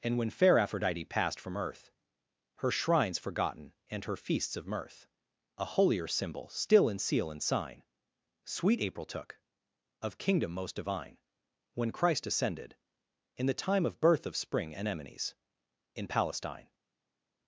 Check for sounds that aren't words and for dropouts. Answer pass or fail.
pass